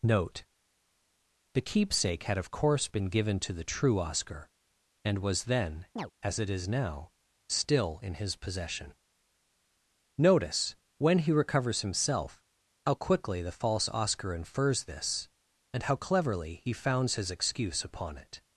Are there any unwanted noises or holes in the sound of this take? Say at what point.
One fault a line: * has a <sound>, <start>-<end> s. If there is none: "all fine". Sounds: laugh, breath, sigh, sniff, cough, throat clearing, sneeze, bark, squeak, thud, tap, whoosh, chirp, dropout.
* has a chirp, 5.9-6.1 s